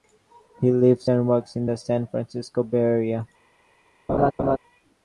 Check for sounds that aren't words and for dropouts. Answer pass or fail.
fail